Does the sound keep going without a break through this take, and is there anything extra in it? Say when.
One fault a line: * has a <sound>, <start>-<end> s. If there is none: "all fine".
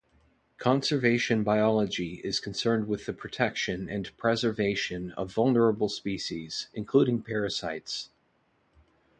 all fine